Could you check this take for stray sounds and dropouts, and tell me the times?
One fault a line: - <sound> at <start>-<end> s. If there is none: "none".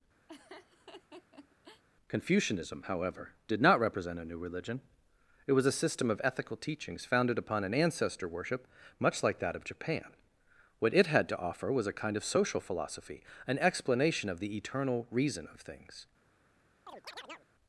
- laugh at 0.3-1.8 s
- chirp at 16.9-17.5 s